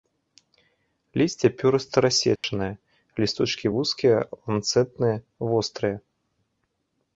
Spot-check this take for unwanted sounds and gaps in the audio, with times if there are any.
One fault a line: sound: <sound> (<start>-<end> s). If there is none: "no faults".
sound: dropout (2.4-2.4 s)